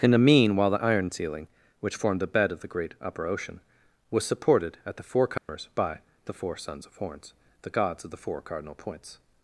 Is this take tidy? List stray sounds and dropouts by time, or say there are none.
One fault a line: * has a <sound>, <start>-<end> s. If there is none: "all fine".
* has a dropout, 5.4-5.5 s